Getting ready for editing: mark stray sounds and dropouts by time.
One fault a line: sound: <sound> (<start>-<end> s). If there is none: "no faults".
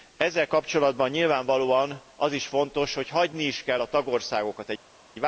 no faults